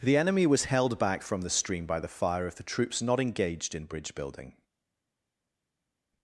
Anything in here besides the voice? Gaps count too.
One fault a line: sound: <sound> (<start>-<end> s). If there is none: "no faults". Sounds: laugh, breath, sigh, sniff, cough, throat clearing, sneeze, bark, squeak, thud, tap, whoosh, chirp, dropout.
no faults